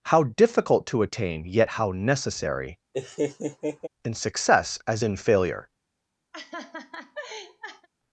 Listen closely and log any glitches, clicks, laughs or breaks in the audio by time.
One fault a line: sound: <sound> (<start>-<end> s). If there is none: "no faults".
sound: laugh (2.9-3.9 s)
sound: laugh (6.3-7.9 s)